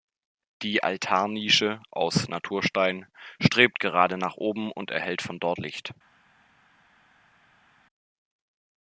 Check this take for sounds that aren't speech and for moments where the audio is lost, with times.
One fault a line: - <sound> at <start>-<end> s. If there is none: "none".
none